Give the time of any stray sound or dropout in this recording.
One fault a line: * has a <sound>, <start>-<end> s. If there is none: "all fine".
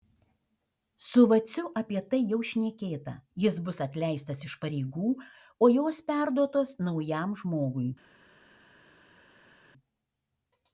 all fine